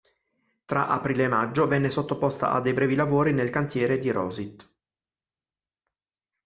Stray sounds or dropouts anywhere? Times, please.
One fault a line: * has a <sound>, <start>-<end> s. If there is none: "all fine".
all fine